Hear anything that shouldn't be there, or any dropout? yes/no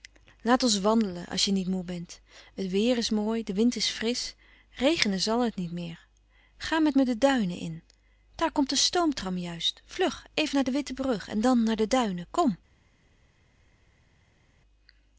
no